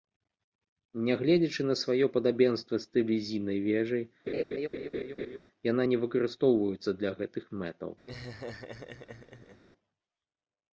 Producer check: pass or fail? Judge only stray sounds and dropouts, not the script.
fail